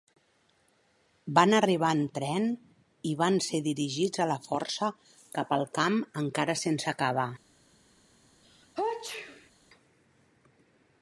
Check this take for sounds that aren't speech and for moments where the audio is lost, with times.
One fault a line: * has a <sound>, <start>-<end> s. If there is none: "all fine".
* has a sneeze, 8.4-9.5 s